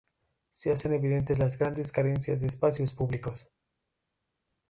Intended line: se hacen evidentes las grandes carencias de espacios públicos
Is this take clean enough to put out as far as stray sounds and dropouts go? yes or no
yes